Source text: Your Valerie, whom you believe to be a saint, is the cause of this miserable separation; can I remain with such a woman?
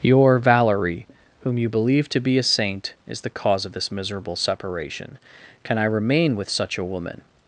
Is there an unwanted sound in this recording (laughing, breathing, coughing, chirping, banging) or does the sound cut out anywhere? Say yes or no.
no